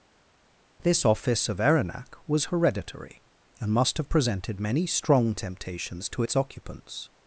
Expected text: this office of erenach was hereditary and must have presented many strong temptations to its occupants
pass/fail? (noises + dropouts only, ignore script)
pass